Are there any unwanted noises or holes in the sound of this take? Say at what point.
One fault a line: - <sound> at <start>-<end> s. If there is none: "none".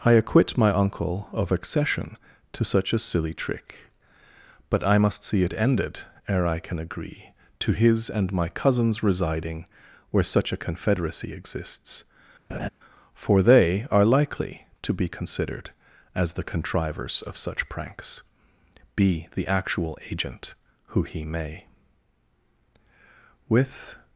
- laugh at 12.5-12.7 s